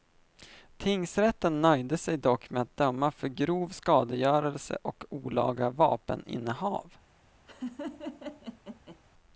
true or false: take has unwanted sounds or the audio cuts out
true